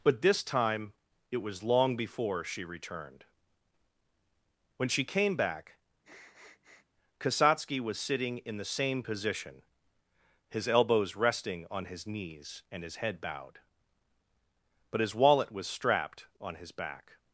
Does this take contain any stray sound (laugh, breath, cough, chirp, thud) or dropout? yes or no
yes